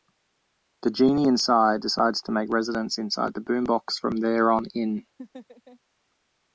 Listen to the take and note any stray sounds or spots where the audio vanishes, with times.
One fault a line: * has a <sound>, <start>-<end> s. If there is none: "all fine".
* has a laugh, 5.2-5.8 s